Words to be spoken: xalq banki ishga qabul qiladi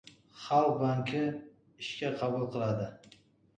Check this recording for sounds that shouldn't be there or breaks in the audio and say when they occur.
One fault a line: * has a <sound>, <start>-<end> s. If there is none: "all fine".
all fine